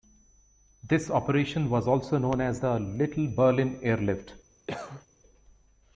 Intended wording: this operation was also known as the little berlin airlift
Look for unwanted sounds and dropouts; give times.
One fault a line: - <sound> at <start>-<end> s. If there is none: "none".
- cough at 4.7-5.1 s